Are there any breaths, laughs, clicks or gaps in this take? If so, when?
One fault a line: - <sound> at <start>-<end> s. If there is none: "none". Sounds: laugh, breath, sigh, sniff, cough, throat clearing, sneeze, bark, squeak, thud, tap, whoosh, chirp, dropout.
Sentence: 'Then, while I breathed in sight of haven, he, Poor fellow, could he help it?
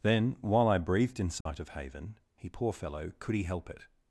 - dropout at 1.4-1.5 s